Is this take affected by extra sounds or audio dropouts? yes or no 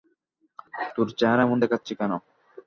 no